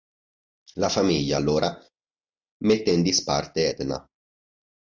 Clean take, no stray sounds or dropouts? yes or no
yes